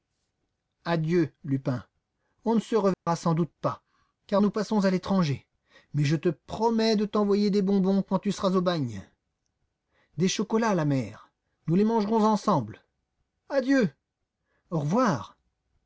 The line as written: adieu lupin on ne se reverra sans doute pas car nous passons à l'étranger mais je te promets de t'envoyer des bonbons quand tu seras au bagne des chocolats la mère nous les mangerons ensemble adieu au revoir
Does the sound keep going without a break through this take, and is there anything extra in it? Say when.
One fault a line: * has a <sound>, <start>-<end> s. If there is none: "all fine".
* has a dropout, 2.9-3.1 s